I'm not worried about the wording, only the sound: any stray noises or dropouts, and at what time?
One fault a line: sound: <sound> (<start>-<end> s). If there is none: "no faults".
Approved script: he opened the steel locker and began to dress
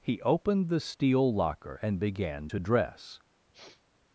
sound: sniff (3.5-3.8 s)